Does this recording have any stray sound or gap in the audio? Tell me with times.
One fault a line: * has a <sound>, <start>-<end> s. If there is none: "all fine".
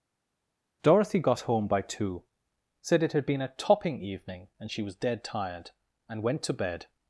all fine